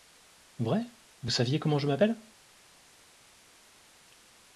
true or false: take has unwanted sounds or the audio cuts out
false